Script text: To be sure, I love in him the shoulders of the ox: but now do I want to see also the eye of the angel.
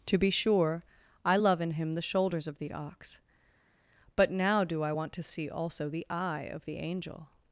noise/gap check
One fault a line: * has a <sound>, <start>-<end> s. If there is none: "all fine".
all fine